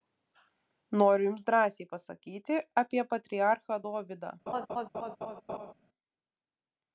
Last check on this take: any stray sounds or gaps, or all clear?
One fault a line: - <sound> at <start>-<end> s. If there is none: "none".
- laugh at 4.5-5.7 s